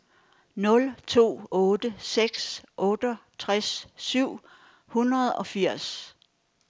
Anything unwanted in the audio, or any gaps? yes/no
no